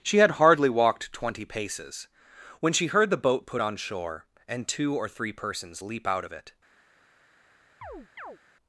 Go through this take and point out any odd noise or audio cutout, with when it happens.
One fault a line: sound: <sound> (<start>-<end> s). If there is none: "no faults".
sound: chirp (7.8-8.4 s)